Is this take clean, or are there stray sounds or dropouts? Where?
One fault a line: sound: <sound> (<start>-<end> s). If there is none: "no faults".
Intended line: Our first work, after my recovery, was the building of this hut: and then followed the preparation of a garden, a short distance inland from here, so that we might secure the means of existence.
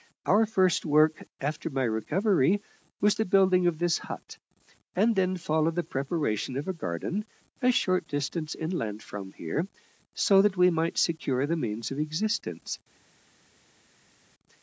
no faults